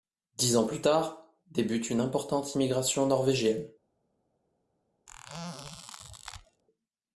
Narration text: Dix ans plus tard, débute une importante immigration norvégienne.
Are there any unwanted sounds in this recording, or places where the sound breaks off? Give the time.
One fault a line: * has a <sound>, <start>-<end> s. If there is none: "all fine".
* has a squeak, 5.1-6.6 s